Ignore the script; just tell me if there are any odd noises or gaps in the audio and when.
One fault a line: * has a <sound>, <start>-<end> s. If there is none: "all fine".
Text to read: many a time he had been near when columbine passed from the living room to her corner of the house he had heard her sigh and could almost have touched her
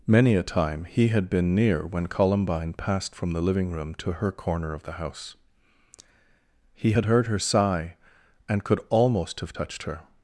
all fine